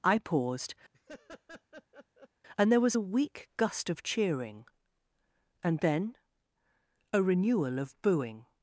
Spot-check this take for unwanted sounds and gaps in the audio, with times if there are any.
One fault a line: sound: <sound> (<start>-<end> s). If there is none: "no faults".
sound: laugh (0.9-2.3 s)